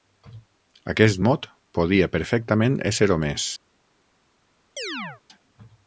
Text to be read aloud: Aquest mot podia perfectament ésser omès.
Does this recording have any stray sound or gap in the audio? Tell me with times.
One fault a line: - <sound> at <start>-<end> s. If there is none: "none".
- chirp at 4.8-5.2 s